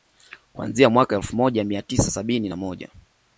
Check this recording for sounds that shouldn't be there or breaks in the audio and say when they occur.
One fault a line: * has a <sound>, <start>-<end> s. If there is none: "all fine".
all fine